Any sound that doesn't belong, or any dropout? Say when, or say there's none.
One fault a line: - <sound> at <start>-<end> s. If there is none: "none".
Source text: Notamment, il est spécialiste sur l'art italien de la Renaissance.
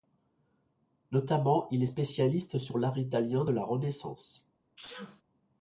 - sneeze at 4.8-5.2 s